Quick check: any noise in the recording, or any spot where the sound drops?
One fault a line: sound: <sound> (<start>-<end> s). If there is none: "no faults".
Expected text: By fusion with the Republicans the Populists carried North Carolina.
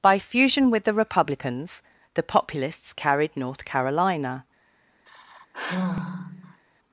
sound: sigh (5.1-6.6 s)